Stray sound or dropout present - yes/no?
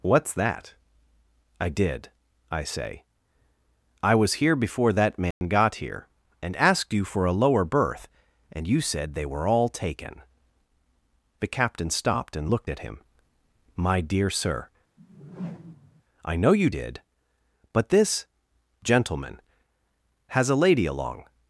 yes